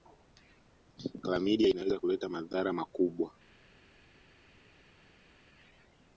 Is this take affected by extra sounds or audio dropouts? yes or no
no